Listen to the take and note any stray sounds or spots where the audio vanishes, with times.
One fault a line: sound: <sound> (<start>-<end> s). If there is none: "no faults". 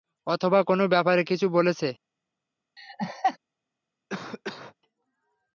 sound: laugh (2.8-3.4 s)
sound: cough (4.1-4.8 s)